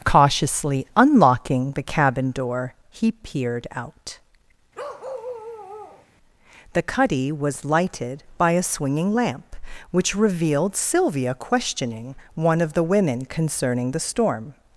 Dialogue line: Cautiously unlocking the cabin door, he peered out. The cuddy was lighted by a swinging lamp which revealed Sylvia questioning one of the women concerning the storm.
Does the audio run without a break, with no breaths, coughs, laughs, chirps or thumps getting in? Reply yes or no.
no